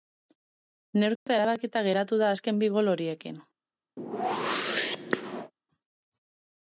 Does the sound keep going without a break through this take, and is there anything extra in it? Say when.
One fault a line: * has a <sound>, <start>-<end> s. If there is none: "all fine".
* has a dropout, 1.2-1.3 s
* has a whoosh, 4.0-5.5 s